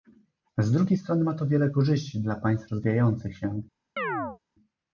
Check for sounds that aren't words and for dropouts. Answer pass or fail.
fail